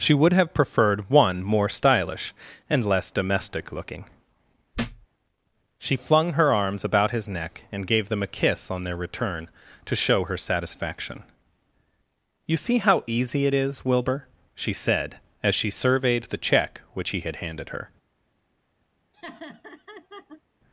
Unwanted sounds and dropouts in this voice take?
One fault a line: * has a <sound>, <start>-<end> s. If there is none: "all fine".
* has a thud, 4.7-5.1 s
* has a laugh, 19.1-20.4 s